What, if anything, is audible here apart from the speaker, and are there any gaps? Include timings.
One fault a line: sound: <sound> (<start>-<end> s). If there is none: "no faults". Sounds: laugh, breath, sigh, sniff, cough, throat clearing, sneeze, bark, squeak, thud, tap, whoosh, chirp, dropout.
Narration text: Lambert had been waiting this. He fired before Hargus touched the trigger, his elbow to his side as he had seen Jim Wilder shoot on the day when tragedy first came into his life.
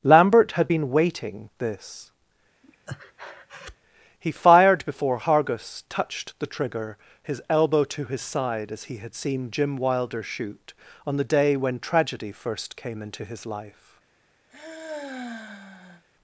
sound: breath (2.6-3.8 s)
sound: sigh (14.5-16.0 s)